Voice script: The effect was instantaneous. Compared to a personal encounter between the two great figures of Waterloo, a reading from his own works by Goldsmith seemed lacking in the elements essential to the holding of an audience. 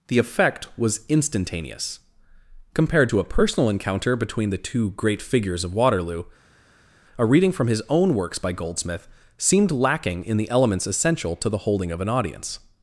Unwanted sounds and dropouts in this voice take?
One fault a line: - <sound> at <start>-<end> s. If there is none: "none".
none